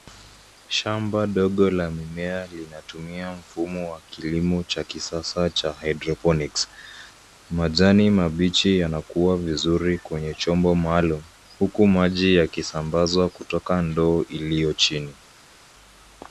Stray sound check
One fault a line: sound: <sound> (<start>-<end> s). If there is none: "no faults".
no faults